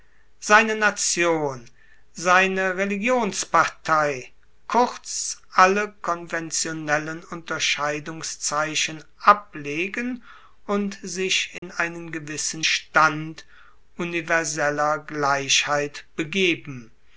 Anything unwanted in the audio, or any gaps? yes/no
yes